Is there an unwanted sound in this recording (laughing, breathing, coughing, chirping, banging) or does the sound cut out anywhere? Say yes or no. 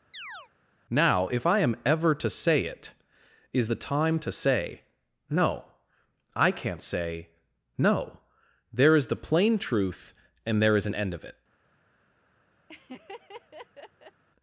yes